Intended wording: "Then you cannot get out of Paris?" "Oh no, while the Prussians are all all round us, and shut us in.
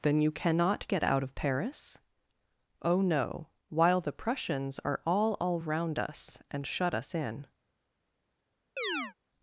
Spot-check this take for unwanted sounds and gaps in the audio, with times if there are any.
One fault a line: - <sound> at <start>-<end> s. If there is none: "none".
- chirp at 8.8-9.1 s